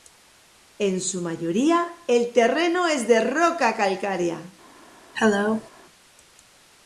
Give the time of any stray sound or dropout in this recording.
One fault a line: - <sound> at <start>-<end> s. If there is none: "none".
- cough at 5.1-5.7 s